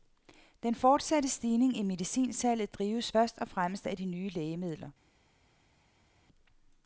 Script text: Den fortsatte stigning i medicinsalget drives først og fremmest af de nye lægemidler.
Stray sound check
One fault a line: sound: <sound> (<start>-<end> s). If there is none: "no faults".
no faults